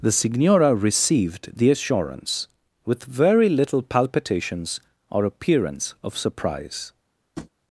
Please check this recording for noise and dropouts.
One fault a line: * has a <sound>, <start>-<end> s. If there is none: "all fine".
* has a tap, 7.4-7.5 s